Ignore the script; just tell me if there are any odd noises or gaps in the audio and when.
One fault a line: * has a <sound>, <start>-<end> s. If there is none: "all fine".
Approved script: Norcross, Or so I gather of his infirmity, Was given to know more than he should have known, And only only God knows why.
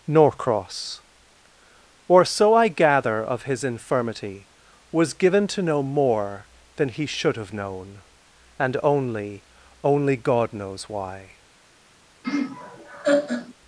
* has a laugh, 12.2-13.5 s